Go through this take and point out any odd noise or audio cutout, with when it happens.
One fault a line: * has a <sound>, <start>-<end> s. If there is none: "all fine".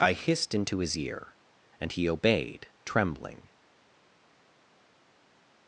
all fine